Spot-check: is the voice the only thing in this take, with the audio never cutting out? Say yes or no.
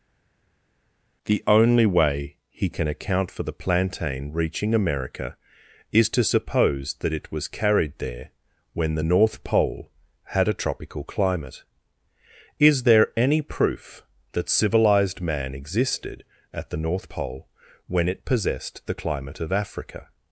yes